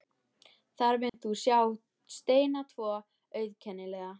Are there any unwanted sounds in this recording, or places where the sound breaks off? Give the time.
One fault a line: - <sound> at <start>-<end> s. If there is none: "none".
- dropout at 1.1-1.1 s